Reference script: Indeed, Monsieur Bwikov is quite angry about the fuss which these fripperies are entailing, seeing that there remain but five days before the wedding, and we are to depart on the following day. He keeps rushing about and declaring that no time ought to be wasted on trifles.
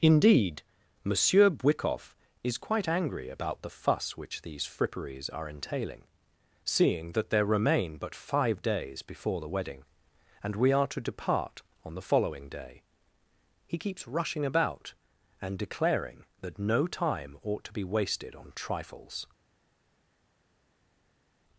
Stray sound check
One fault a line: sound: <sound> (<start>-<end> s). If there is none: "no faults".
no faults